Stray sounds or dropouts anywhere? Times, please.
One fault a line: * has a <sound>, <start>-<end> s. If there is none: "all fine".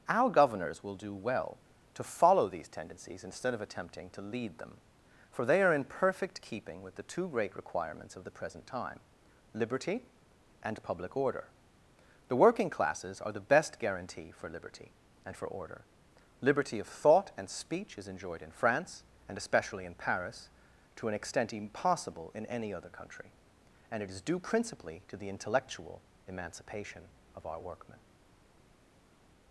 all fine